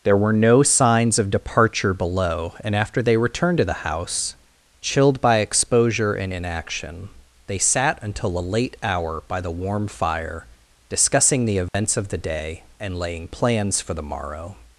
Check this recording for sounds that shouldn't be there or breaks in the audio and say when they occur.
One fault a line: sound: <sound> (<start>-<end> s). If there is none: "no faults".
sound: dropout (11.7-11.7 s)